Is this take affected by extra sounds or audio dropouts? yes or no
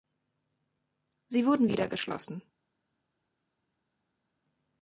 no